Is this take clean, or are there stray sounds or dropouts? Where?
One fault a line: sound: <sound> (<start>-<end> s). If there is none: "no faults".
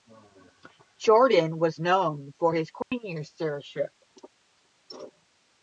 sound: dropout (2.8-2.9 s)